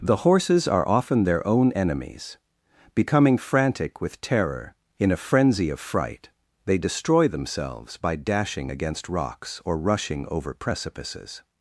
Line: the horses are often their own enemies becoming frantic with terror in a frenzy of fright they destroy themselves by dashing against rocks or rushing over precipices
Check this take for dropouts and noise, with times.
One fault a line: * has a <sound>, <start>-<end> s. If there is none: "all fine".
all fine